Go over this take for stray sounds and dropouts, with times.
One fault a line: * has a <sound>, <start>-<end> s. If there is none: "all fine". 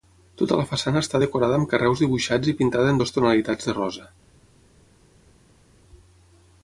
all fine